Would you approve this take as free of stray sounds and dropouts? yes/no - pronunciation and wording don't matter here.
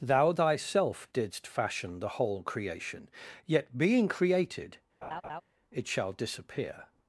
no